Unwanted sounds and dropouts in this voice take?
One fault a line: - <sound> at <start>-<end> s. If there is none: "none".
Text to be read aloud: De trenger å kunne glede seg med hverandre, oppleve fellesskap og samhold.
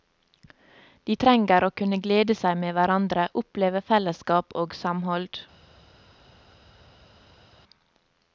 none